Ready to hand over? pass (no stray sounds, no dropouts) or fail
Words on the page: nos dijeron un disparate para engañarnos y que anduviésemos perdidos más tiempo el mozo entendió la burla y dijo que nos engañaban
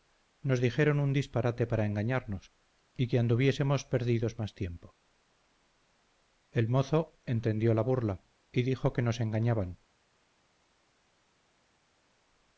pass